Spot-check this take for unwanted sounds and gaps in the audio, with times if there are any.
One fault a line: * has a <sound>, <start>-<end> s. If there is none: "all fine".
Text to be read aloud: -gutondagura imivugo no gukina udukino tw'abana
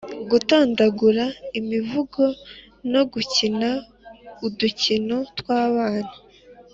all fine